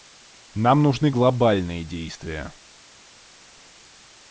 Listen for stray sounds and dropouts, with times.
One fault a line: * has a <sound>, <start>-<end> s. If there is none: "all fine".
all fine